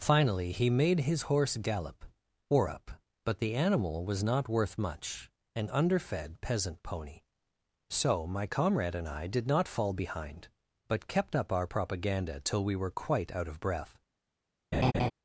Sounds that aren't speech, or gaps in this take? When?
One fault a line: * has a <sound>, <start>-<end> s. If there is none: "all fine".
* has a laugh, 14.7-15.1 s